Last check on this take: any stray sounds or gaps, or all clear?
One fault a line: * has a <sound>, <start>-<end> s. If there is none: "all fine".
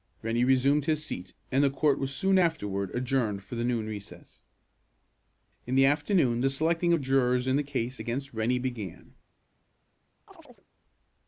* has a chirp, 10.3-10.7 s